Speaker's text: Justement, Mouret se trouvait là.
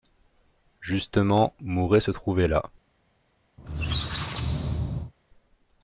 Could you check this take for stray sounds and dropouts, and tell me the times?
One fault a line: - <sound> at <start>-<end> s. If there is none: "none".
- squeak at 3.6-5.1 s